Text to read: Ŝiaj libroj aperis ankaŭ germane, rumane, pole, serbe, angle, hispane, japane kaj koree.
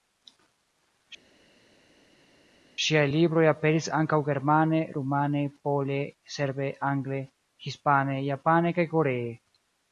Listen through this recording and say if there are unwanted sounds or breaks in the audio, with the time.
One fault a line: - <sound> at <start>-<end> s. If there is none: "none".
none